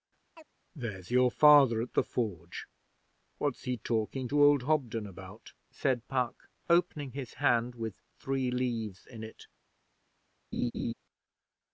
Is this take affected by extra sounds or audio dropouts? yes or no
yes